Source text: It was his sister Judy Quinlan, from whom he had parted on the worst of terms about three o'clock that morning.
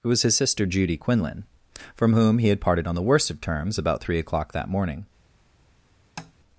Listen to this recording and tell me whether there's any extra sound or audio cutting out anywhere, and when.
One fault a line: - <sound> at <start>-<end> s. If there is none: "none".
- tap at 6.2-6.3 s